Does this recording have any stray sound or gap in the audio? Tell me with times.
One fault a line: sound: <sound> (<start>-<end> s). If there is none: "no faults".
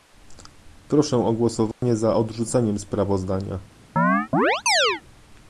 sound: dropout (1.7-1.8 s)
sound: chirp (4.0-5.0 s)